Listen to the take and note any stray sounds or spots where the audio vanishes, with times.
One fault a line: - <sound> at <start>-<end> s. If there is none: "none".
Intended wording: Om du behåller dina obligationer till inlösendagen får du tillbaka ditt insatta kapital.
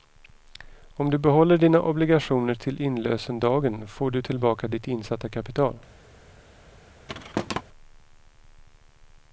- thud at 7.1-7.6 s